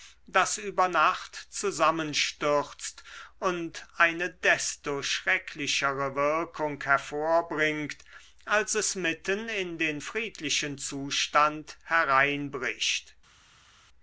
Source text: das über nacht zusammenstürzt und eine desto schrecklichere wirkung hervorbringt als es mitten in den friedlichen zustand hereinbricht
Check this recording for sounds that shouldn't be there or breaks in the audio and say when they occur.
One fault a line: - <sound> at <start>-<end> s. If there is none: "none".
none